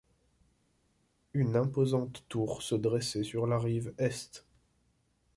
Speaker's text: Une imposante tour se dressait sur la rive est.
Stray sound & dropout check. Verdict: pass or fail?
pass